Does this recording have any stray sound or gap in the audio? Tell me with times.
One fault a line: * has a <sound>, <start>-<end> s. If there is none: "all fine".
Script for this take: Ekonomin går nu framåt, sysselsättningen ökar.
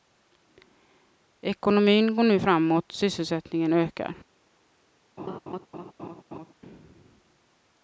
* has a laugh, 5.2-6.5 s